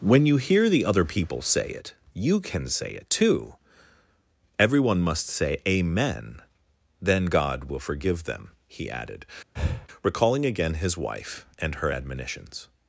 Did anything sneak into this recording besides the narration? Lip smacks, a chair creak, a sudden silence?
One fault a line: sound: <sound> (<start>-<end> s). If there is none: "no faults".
sound: breath (9.6-9.9 s)